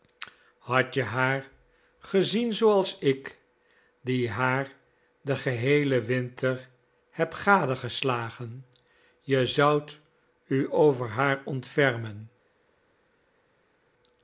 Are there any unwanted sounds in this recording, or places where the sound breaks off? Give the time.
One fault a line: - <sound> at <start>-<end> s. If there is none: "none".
none